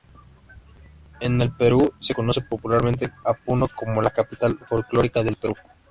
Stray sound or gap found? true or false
false